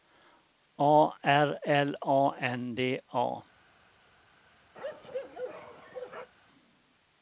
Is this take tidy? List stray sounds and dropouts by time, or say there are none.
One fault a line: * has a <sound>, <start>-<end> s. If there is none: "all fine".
* has a bark, 4.7-6.3 s